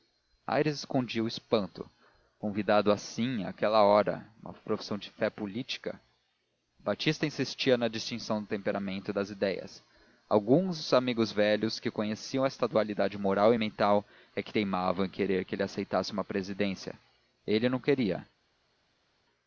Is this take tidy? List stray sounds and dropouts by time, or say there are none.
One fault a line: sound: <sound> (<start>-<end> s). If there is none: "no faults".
no faults